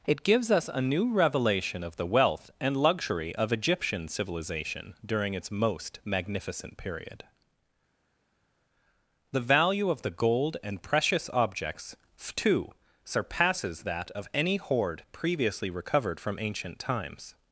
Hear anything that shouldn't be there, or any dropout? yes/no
no